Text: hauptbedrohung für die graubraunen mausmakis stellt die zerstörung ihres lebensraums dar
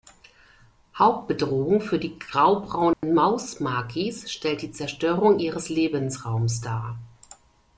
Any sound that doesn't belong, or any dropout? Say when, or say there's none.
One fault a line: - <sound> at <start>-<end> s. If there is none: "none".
- dropout at 2.9-3.0 s